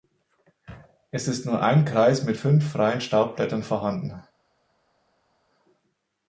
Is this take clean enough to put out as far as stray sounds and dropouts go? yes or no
yes